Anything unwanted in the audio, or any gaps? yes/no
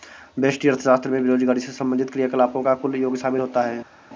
no